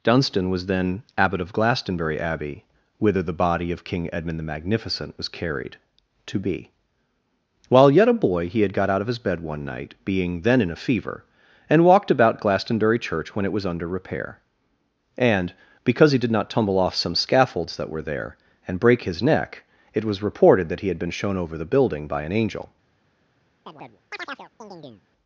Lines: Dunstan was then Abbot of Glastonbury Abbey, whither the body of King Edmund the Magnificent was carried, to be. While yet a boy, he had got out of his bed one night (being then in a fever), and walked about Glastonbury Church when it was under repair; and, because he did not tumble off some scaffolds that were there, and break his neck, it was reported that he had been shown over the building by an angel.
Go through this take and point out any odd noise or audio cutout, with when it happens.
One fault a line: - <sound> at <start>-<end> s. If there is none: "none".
- chirp at 23.7-25.1 s